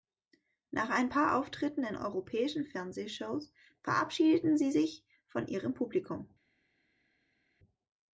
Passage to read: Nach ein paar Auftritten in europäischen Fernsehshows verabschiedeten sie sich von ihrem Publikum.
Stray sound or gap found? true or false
false